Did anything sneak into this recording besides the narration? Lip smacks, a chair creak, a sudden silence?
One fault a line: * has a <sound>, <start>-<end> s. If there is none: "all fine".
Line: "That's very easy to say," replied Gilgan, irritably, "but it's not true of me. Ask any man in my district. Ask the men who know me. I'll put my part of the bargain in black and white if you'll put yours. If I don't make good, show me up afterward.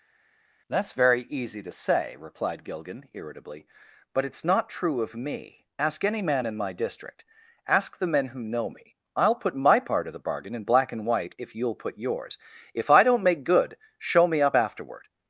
all fine